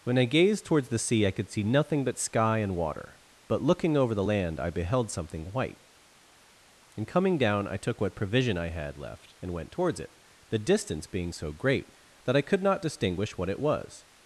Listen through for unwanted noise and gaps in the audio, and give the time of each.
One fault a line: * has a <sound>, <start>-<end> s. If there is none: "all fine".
all fine